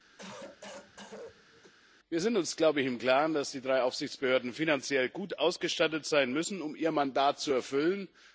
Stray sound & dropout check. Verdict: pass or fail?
fail